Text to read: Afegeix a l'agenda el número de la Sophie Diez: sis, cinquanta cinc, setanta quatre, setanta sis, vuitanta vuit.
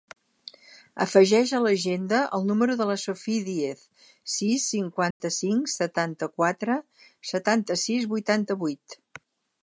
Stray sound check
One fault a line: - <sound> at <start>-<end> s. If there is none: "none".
- dropout at 5.1-5.2 s